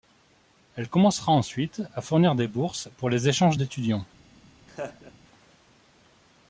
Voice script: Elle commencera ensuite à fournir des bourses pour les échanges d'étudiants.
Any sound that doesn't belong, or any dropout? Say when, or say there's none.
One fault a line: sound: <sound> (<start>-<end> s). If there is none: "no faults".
sound: laugh (4.7-5.1 s)